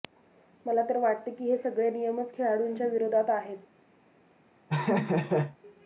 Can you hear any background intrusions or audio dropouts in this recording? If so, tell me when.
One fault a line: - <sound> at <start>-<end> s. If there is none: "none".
- laugh at 4.7-5.6 s